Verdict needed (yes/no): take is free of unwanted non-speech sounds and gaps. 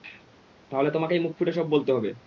yes